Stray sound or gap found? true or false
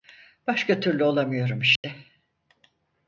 true